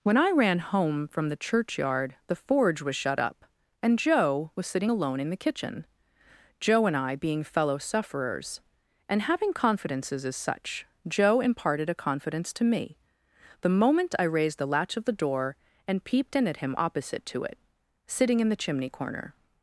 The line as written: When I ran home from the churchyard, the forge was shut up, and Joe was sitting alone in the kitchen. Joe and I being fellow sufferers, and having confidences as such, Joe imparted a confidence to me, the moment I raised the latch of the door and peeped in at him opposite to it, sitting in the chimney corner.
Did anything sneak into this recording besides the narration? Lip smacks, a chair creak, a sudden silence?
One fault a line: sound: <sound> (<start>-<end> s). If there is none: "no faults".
no faults